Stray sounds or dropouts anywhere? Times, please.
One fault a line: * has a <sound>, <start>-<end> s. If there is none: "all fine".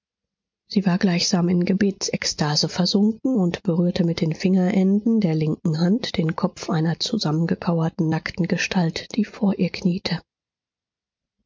all fine